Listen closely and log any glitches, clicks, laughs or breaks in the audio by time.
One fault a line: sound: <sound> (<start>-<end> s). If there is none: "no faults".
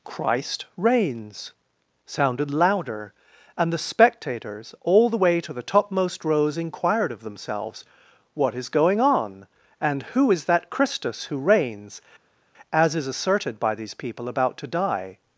no faults